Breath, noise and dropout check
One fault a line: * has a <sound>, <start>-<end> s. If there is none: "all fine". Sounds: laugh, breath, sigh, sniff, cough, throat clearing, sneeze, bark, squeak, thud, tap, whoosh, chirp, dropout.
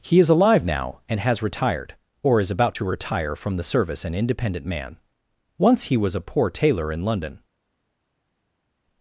all fine